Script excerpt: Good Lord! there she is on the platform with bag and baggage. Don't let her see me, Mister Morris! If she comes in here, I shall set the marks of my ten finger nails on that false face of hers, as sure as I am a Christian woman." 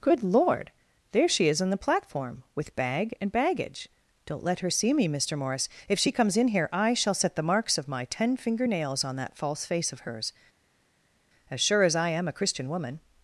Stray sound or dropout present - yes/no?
no